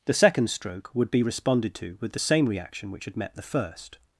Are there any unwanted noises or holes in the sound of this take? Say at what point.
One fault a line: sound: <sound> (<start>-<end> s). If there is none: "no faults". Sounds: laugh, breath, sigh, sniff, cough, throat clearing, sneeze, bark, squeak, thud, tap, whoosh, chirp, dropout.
no faults